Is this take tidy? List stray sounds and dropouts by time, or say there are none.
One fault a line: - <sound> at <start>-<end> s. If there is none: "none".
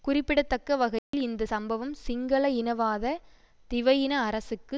- dropout at 1.0-1.1 s